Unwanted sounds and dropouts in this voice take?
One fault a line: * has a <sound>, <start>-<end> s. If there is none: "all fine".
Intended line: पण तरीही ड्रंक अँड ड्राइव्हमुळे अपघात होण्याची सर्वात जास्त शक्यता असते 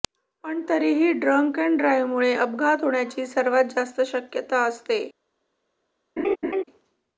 * has a laugh, 6.2-6.6 s